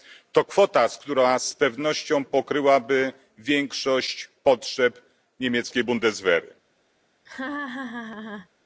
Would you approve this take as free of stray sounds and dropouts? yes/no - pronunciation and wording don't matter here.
no